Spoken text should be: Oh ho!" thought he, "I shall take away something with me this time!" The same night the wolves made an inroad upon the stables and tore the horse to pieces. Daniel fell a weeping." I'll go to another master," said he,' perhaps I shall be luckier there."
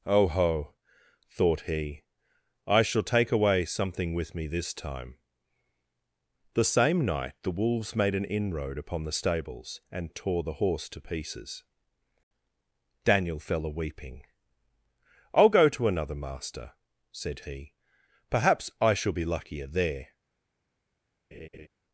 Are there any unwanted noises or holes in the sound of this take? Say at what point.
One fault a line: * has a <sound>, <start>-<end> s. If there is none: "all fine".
* has a laugh, 21.3-21.7 s